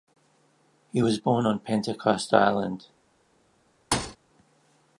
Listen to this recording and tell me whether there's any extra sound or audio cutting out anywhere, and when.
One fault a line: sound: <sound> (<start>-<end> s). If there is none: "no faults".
sound: thud (3.9-4.2 s)